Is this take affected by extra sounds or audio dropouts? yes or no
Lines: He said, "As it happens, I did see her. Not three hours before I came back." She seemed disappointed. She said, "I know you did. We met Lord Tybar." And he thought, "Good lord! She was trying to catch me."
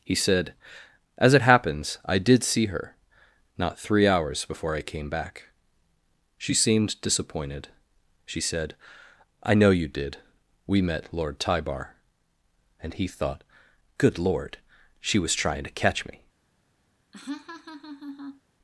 yes